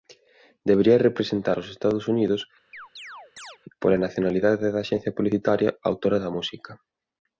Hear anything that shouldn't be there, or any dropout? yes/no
yes